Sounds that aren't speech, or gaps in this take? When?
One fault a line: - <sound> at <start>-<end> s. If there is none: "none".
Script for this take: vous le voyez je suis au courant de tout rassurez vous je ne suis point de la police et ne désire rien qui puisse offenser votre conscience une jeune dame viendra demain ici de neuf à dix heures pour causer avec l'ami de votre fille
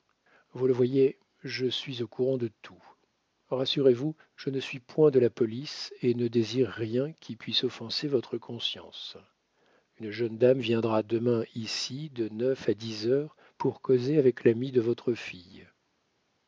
none